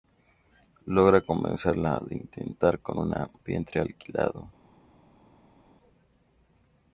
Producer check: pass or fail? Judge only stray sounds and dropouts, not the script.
pass